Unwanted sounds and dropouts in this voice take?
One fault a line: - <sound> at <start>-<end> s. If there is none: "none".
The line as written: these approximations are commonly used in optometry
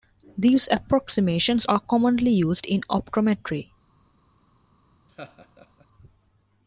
- laugh at 5.1-5.9 s